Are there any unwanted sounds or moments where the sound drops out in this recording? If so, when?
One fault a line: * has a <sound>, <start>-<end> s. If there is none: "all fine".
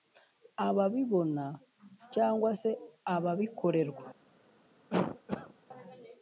* has a cough, 4.9-5.5 s